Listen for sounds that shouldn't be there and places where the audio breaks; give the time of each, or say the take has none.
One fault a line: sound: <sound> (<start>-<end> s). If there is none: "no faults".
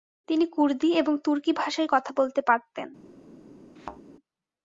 sound: thud (3.8-4.0 s)